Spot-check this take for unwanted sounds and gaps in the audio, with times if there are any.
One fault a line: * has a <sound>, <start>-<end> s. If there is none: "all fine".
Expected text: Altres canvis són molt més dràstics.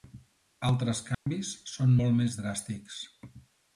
* has a dropout, 1.1-1.3 s